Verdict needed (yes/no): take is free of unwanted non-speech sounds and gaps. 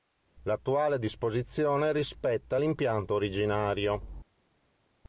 yes